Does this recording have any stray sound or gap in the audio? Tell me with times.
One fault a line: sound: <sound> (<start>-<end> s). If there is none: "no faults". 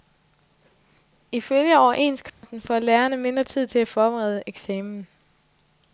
sound: dropout (2.3-2.4 s)